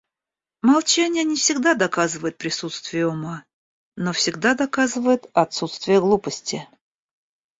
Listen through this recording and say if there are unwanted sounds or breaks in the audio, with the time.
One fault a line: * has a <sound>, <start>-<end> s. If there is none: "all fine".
all fine